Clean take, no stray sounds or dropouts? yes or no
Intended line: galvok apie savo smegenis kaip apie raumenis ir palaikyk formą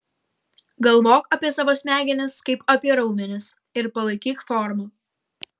yes